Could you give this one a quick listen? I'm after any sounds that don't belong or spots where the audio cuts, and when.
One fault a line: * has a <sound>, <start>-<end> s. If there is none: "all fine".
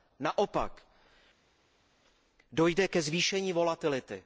all fine